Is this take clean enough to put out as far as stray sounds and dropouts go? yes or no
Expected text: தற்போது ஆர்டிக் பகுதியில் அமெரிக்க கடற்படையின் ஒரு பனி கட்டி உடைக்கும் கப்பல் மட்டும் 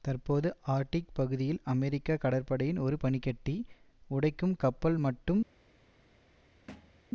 no